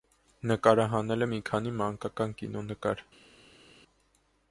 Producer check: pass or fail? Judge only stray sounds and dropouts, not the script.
pass